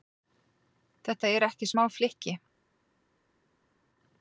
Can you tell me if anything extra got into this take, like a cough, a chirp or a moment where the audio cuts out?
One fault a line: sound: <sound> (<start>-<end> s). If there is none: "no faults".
no faults